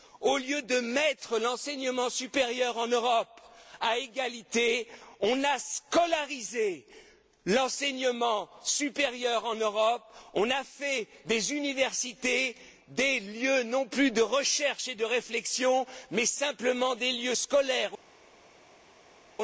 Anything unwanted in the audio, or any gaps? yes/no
no